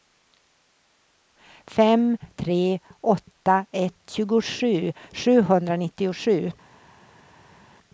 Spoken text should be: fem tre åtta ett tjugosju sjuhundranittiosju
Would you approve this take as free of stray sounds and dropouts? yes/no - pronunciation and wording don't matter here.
yes